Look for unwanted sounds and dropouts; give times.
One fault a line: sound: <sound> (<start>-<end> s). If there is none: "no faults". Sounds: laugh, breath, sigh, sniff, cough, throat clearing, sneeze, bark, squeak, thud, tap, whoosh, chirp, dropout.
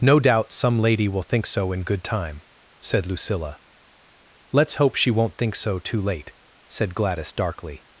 no faults